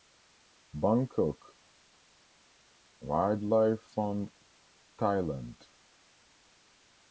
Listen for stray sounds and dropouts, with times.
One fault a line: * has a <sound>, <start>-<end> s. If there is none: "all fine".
all fine